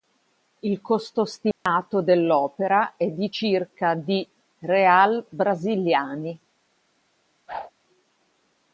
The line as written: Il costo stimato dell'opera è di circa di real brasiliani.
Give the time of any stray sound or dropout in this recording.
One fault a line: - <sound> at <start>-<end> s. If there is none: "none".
- dropout at 1.5-1.7 s
- whoosh at 7.5-7.7 s